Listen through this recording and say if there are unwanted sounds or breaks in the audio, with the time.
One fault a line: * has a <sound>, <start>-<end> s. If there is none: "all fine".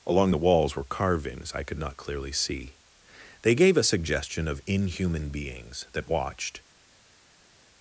all fine